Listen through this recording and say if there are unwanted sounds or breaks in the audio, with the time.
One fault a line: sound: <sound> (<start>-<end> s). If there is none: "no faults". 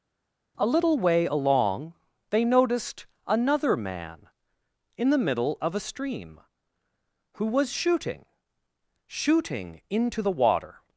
no faults